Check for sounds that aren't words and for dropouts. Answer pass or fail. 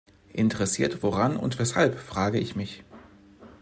pass